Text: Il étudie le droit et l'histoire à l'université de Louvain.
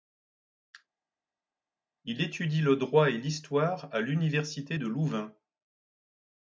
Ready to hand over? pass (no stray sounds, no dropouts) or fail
pass